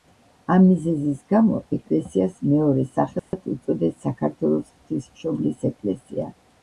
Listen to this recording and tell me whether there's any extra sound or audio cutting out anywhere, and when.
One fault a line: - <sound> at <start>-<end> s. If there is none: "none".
- dropout at 3.2-3.3 s